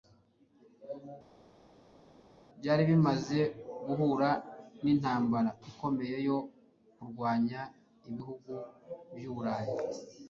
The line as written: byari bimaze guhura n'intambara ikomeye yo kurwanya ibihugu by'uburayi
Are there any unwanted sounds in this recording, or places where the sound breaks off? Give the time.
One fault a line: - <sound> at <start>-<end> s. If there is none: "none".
none